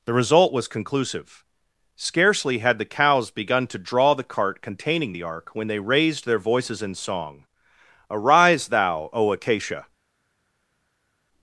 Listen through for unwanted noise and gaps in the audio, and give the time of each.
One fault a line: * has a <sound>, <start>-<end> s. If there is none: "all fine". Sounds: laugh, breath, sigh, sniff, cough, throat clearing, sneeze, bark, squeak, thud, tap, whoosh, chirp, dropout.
all fine